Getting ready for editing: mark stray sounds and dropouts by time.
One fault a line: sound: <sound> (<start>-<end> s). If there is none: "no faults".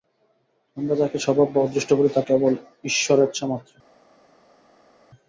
no faults